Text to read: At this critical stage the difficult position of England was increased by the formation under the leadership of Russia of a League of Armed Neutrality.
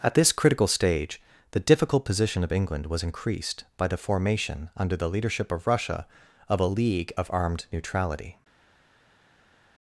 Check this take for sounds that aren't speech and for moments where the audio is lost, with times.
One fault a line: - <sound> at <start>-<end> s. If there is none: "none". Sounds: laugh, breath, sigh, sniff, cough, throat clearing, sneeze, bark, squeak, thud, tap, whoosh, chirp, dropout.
none